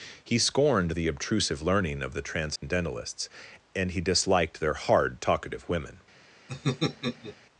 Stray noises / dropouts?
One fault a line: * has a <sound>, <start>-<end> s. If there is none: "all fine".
* has a dropout, 2.6-2.6 s
* has a laugh, 6.5-7.4 s